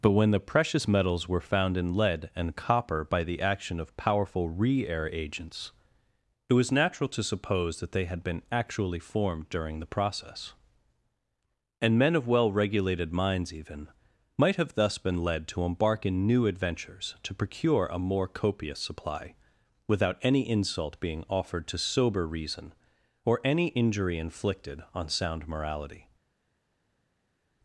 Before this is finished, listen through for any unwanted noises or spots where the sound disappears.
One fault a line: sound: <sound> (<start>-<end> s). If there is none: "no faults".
no faults